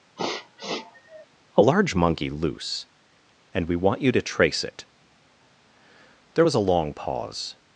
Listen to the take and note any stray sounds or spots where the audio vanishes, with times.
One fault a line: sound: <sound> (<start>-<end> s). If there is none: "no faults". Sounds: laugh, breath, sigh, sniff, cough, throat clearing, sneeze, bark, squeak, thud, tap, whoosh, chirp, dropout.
sound: sniff (0.2-1.2 s)